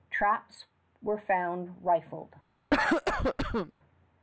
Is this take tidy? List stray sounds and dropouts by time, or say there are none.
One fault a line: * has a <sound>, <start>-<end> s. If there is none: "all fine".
* has a cough, 2.7-3.7 s